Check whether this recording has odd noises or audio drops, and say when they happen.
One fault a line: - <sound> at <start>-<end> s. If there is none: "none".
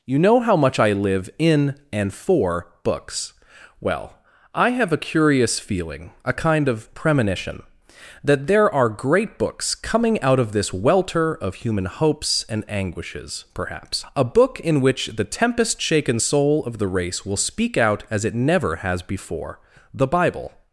none